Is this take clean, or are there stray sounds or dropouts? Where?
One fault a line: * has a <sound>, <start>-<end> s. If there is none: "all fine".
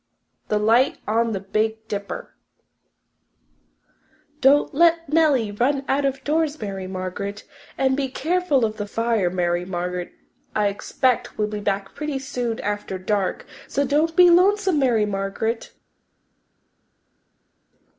all fine